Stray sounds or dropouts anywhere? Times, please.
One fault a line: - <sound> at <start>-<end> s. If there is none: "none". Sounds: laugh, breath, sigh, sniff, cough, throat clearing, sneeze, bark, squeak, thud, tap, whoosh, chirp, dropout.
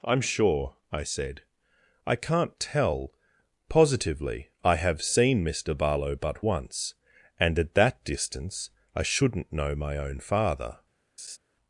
- laugh at 11.2-11.4 s